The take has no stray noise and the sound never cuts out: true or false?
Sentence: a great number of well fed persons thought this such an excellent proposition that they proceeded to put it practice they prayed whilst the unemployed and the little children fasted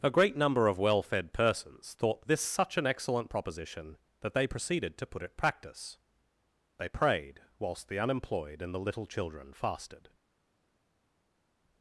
true